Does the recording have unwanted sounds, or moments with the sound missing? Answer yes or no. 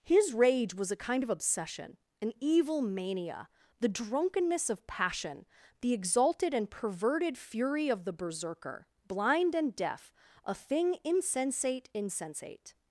no